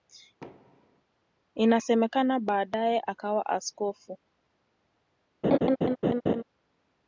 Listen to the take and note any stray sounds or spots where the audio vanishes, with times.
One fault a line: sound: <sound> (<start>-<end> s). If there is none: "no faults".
sound: thud (0.4-1.0 s)
sound: laugh (5.4-6.4 s)